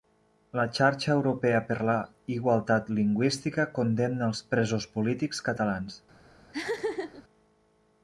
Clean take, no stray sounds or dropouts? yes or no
no